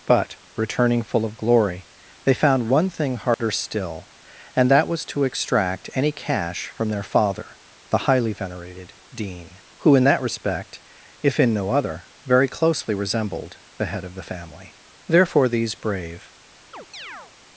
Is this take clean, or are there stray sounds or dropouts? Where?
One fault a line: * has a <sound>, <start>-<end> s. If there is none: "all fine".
* has a dropout, 3.3-3.4 s
* has a chirp, 16.7-17.3 s